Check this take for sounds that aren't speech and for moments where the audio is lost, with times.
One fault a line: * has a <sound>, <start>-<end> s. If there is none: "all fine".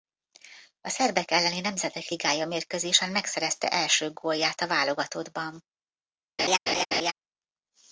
* has a laugh, 6.4-7.1 s